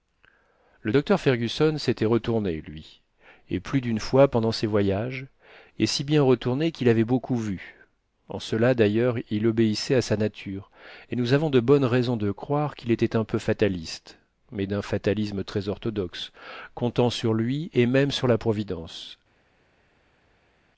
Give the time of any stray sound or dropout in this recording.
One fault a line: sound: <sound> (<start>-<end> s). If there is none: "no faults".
no faults